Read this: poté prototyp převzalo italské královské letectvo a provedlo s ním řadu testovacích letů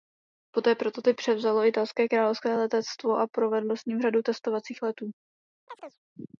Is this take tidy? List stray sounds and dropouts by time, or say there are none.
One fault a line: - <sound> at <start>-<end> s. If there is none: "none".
- chirp at 5.7-6.0 s